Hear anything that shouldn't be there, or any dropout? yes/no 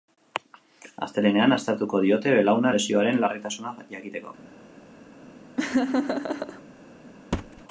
yes